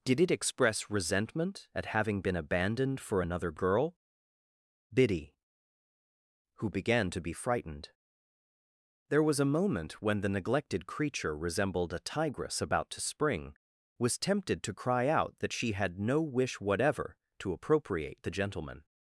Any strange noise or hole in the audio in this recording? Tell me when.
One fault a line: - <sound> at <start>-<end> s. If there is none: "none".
none